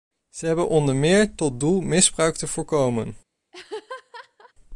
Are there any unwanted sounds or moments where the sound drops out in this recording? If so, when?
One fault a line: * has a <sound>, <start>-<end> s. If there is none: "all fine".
* has a laugh, 3.5-4.5 s